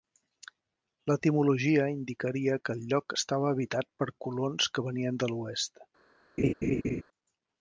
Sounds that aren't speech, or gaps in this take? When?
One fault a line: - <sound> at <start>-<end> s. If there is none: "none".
- laugh at 6.4-7.0 s